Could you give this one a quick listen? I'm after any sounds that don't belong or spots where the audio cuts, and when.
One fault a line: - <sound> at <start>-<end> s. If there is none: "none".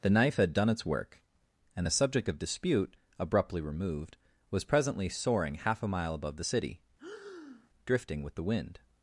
- breath at 7.0-7.7 s